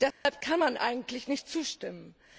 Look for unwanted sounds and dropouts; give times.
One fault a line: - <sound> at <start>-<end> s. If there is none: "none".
- dropout at 0.1-0.3 s